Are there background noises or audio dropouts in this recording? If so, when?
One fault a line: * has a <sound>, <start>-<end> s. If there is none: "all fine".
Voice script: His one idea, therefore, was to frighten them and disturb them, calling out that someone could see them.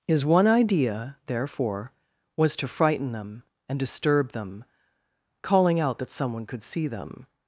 all fine